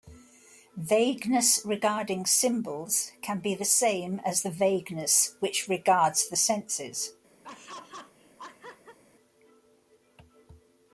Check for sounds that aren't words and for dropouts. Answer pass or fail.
fail